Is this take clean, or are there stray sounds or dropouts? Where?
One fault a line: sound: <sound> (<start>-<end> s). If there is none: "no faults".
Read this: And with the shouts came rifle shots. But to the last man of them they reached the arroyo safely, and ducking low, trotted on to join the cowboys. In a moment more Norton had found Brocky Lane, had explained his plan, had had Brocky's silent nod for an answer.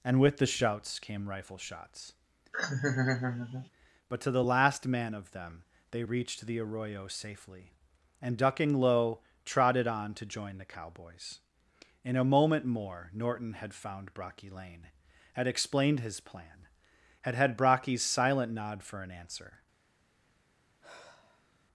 sound: laugh (2.5-3.7 s)
sound: sigh (20.8-21.7 s)